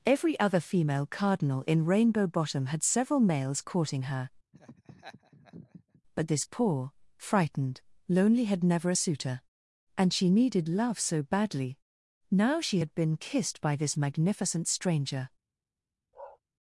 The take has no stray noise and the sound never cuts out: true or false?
false